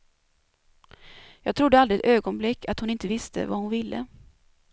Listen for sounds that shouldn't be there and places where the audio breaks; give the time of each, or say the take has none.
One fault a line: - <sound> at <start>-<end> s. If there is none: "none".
none